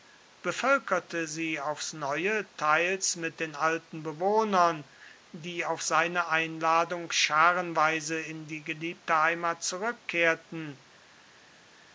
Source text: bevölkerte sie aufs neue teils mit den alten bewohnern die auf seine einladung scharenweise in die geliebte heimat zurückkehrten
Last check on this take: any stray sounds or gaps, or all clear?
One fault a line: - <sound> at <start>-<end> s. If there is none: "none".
none